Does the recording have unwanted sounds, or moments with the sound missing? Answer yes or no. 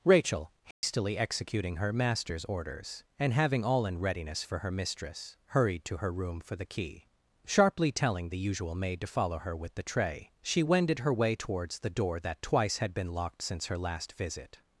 yes